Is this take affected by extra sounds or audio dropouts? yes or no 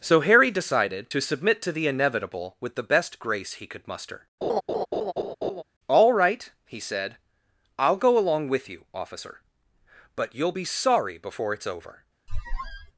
yes